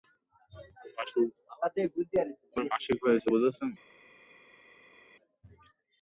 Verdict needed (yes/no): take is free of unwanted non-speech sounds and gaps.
yes